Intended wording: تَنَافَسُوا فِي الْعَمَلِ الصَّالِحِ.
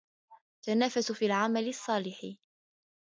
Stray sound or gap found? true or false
false